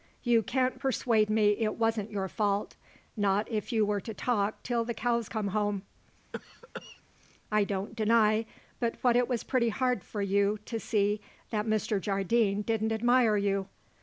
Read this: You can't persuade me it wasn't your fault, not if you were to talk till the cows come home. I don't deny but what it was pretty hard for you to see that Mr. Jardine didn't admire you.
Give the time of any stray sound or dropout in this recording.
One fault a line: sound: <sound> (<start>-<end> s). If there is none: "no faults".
sound: cough (6.3-7.0 s)